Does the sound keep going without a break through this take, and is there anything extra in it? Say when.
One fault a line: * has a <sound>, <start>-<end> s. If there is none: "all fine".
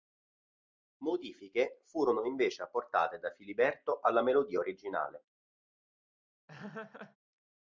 * has a laugh, 6.5-7.2 s